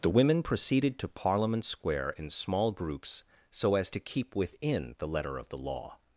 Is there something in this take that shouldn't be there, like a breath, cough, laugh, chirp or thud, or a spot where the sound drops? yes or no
no